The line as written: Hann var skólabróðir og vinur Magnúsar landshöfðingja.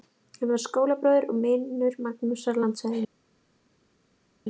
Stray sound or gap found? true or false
false